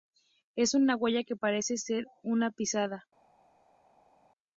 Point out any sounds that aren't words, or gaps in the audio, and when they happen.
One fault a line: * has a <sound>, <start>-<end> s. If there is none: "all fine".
all fine